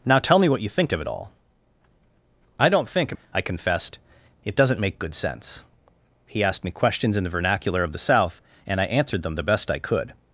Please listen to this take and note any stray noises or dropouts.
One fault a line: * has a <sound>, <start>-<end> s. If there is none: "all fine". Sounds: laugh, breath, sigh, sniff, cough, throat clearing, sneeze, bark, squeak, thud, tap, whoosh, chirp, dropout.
all fine